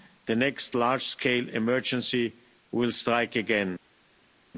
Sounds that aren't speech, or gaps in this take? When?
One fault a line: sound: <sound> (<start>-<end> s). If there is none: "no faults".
no faults